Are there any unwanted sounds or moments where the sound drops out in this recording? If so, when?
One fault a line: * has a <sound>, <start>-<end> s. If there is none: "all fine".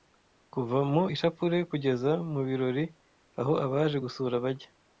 all fine